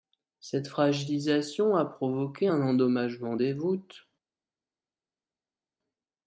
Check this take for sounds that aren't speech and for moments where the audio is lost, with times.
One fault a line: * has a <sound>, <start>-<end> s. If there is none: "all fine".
all fine